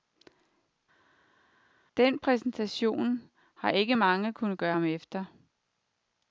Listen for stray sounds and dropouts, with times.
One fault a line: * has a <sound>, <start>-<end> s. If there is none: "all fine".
all fine